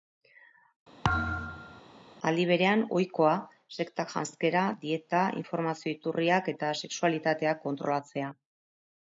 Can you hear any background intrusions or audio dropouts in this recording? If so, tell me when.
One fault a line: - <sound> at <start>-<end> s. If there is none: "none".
- thud at 1.0-1.8 s